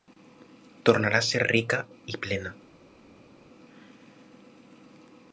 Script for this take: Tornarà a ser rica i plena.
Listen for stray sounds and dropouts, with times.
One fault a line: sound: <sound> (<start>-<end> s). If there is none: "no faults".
no faults